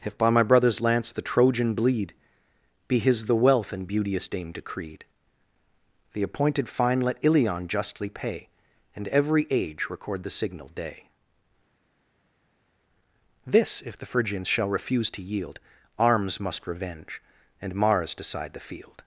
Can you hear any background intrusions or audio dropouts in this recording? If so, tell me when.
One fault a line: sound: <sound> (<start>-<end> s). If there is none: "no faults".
no faults